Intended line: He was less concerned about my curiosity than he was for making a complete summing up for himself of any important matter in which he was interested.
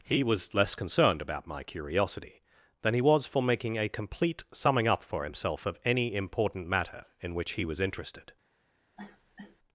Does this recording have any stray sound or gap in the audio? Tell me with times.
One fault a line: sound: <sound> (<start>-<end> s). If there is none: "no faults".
sound: cough (9.0-9.6 s)